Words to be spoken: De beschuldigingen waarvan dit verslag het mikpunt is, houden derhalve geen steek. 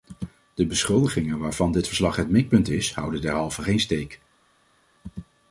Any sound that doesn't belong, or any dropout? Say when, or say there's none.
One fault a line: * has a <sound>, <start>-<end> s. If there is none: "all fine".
all fine